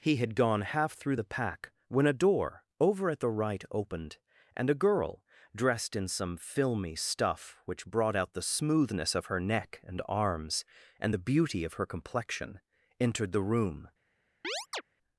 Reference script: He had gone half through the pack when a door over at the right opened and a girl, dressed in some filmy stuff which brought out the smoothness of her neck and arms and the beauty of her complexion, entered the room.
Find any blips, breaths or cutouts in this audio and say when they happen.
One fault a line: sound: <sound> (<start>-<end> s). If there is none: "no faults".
sound: chirp (14.4-14.8 s)